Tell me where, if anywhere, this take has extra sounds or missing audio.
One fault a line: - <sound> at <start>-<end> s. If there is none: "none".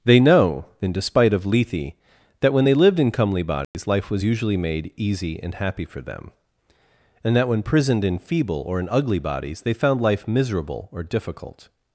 - dropout at 3.6-3.7 s